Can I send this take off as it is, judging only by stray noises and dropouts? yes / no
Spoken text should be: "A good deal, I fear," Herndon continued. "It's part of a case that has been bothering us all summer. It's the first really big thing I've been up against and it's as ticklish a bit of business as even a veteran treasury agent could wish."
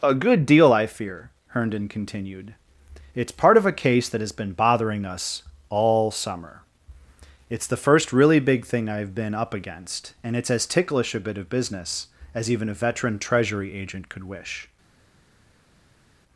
yes